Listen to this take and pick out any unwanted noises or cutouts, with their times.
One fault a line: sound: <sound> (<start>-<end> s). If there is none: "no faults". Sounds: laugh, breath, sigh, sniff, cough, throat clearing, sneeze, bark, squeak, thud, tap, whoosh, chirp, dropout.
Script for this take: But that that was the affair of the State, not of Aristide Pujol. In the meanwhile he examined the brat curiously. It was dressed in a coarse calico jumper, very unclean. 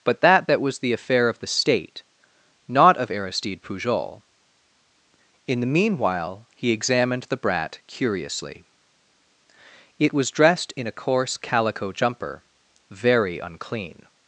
no faults